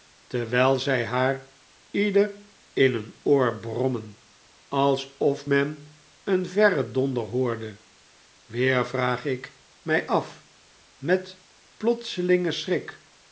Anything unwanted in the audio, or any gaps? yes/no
no